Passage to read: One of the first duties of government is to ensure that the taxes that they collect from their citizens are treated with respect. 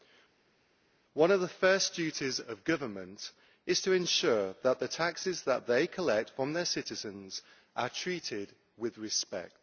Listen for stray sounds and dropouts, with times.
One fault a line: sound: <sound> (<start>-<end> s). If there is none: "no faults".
no faults